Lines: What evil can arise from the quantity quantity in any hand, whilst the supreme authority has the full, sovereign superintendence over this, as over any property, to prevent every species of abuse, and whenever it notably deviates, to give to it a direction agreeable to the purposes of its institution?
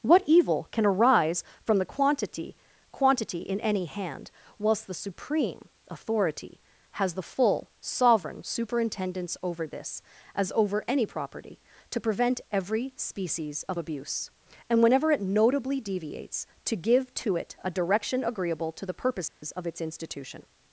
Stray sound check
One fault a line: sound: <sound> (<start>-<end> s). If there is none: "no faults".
sound: dropout (19.3-19.4 s)